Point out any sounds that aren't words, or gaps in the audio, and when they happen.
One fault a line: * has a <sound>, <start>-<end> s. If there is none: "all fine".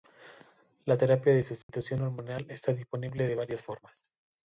* has a dropout, 1.6-1.7 s